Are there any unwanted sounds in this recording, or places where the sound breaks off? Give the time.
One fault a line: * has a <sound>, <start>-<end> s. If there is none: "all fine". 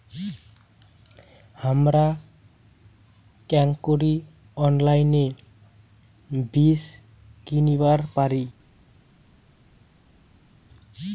all fine